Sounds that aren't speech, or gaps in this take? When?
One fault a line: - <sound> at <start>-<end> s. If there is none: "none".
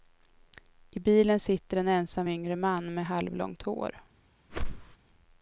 - whoosh at 4.5-5.0 s